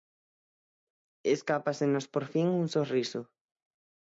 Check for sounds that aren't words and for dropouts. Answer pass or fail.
pass